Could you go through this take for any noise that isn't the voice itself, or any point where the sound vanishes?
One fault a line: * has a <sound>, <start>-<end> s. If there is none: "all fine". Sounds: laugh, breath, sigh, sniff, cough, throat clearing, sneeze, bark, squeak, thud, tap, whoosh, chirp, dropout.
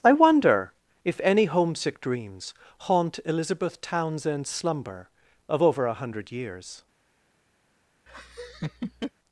* has a laugh, 8.1-9.1 s